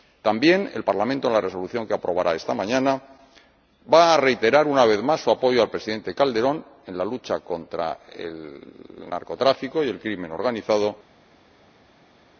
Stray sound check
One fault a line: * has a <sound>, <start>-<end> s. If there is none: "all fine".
all fine